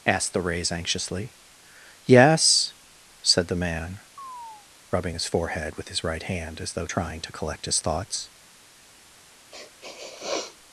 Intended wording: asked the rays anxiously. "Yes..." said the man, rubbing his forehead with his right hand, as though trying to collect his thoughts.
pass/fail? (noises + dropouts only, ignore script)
fail